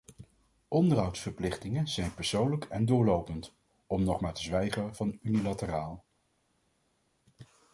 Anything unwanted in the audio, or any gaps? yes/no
no